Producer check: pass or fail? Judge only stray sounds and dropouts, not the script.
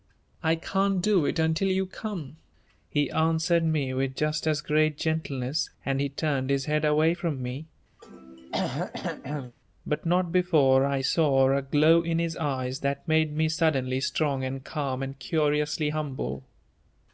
fail